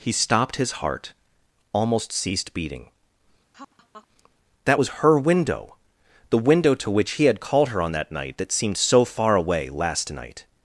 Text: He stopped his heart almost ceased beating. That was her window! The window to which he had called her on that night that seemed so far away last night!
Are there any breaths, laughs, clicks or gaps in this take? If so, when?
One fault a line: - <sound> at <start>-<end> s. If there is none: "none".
- laugh at 3.5-4.1 s